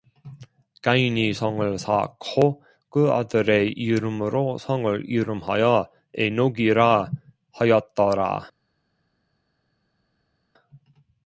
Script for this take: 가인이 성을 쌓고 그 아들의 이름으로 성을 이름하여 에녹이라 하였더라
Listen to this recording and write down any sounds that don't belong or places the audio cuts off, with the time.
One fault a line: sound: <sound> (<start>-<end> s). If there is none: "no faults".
no faults